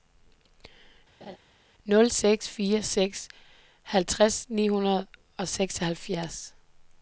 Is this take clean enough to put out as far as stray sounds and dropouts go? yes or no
no